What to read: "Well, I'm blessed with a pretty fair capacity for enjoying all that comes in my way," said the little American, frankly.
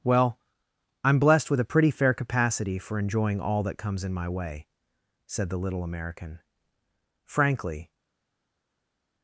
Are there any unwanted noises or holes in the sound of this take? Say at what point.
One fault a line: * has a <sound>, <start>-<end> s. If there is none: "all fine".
all fine